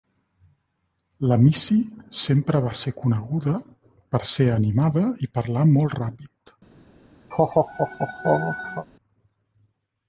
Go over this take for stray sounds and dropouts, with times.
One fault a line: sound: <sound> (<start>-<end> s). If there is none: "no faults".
sound: laugh (7.3-8.9 s)